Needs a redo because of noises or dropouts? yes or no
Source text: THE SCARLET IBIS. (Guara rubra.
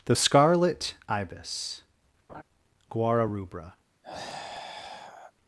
yes